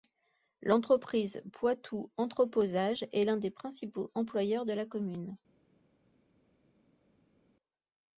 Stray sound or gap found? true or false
false